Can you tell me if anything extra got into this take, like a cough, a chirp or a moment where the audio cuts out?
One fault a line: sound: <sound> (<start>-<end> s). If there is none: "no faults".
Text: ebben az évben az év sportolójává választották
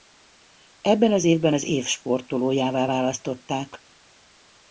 no faults